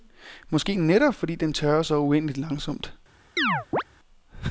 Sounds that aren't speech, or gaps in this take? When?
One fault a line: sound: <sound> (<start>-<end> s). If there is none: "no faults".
sound: chirp (3.4-3.8 s)